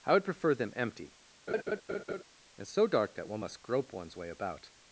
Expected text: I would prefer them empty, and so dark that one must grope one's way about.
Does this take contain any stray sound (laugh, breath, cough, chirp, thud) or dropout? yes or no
yes